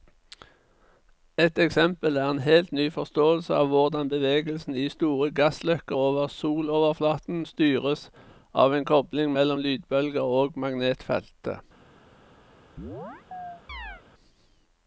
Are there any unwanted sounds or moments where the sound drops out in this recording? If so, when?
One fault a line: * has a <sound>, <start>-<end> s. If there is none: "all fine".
* has a chirp, 12.8-14.0 s